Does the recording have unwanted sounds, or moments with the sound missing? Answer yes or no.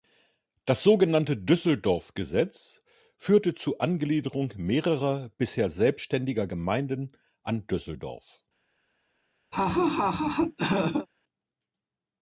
yes